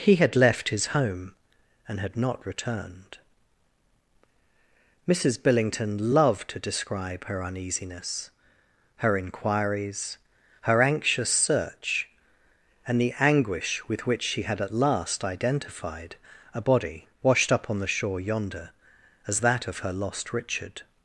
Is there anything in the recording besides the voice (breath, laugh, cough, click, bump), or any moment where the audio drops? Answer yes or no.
no